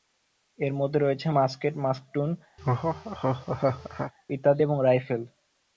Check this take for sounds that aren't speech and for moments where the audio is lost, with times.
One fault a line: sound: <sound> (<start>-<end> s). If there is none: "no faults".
sound: laugh (2.6-4.1 s)